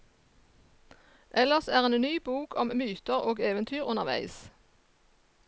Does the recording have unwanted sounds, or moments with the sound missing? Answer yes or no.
no